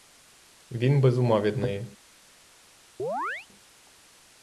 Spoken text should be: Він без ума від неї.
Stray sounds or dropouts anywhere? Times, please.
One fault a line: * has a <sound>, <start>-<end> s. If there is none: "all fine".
* has a chirp, 3.0-3.5 s